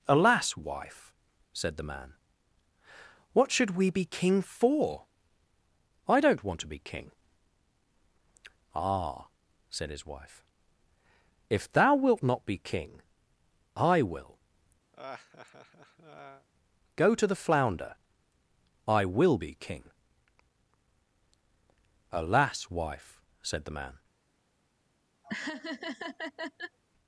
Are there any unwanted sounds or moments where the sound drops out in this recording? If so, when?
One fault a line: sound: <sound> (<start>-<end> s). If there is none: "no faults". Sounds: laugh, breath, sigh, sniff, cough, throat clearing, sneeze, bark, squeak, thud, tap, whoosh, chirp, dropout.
sound: laugh (14.9-16.5 s)
sound: laugh (25.2-26.8 s)